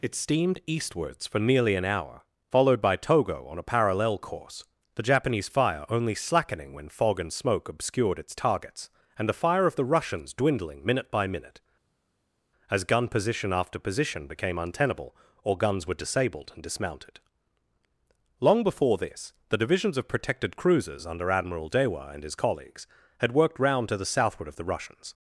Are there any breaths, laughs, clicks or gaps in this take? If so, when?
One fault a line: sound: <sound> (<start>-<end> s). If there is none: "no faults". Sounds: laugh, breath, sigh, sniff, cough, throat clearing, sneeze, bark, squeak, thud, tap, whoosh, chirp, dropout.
no faults